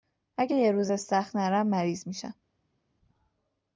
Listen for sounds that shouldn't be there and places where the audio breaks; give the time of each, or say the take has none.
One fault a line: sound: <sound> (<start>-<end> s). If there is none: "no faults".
no faults